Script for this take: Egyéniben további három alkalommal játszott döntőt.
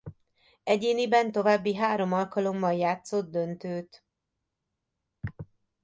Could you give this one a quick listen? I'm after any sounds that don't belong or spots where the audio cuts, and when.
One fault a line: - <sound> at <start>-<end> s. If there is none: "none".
none